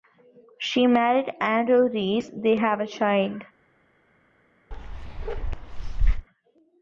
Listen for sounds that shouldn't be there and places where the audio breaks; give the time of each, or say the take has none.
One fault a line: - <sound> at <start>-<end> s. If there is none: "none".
- bark at 4.7-6.3 s